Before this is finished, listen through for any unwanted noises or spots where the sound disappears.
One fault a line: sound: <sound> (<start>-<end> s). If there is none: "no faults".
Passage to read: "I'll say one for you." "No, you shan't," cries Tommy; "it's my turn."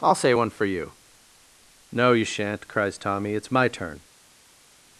no faults